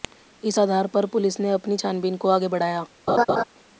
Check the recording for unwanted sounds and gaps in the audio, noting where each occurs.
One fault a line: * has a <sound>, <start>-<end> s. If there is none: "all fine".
* has a laugh, 3.1-3.4 s